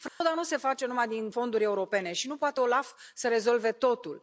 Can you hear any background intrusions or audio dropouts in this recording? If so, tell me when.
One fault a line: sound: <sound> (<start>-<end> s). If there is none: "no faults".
sound: dropout (0.1-0.2 s)